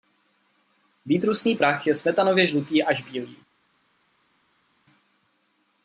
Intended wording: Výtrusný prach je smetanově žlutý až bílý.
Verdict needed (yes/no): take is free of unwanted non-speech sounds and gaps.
yes